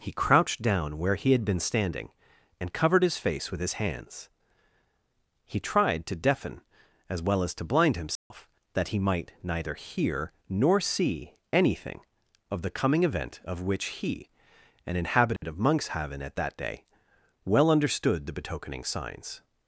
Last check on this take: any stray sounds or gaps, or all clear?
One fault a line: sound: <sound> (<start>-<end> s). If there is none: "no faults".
sound: dropout (8.2-8.3 s)
sound: dropout (15.4-15.4 s)